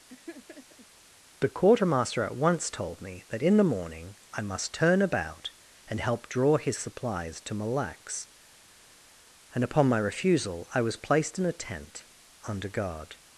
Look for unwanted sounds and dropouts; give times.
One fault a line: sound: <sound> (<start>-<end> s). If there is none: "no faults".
sound: laugh (0.1-0.9 s)